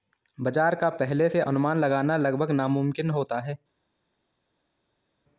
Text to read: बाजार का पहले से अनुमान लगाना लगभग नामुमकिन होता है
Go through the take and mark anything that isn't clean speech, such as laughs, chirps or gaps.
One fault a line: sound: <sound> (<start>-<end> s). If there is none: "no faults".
no faults